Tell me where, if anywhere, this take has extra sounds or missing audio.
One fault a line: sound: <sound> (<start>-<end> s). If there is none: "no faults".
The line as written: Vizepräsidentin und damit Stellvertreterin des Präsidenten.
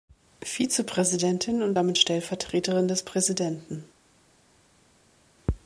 no faults